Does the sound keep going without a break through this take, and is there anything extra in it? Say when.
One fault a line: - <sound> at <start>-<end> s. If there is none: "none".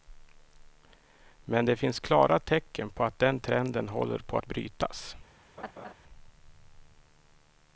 - laugh at 5.6-5.9 s